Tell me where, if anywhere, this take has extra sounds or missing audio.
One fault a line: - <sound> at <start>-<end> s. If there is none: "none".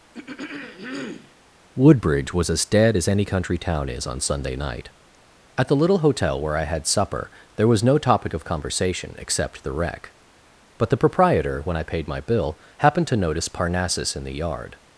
- throat clearing at 0.1-1.4 s